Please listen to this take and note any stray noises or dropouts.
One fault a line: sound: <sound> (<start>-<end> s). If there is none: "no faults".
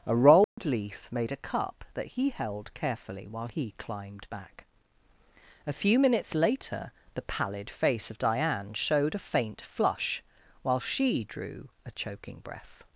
sound: dropout (0.4-0.6 s)